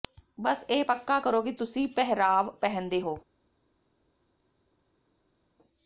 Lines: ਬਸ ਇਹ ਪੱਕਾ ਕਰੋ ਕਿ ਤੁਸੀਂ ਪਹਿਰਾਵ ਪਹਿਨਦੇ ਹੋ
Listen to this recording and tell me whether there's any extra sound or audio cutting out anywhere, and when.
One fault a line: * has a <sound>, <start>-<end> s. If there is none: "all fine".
all fine